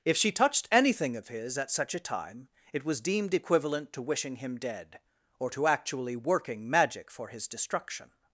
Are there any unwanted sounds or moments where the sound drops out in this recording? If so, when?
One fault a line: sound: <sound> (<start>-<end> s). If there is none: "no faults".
no faults